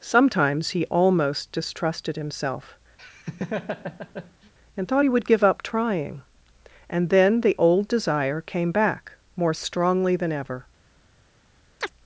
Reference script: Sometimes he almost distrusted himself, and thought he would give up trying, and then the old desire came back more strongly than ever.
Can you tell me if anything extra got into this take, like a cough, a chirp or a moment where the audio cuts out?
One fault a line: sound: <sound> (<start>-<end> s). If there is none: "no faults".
sound: laugh (3.0-4.5 s)
sound: chirp (11.8-11.9 s)